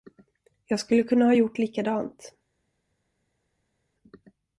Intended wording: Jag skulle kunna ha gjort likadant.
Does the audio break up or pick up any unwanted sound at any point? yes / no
no